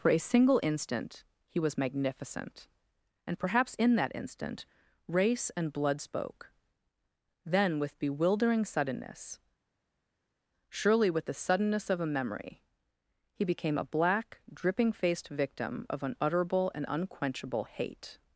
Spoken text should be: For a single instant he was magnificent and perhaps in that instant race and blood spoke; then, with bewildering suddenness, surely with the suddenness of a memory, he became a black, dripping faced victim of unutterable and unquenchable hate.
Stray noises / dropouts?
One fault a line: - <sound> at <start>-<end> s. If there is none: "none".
none